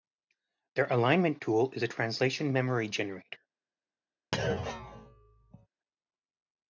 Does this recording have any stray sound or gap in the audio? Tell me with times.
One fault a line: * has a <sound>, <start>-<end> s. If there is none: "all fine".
* has a thud, 4.3-5.7 s